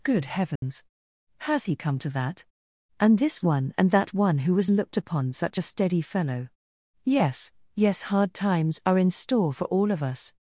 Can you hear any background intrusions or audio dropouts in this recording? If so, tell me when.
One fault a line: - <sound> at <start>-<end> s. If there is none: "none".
- dropout at 0.6-0.6 s